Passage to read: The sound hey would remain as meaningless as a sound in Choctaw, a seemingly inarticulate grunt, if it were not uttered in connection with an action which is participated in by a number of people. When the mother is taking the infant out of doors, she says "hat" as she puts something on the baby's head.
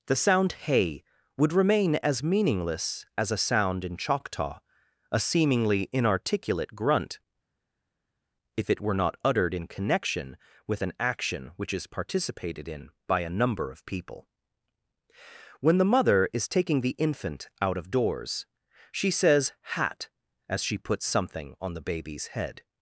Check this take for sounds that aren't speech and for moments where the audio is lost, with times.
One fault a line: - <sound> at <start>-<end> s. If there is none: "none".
none